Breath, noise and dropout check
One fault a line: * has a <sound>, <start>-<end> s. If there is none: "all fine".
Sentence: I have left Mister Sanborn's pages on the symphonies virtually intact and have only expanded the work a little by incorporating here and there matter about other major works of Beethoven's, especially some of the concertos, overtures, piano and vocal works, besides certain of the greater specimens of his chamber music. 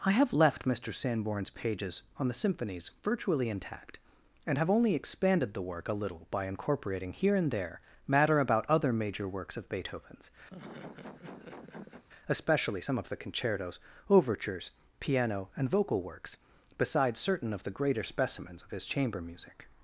* has a laugh, 10.5-12.0 s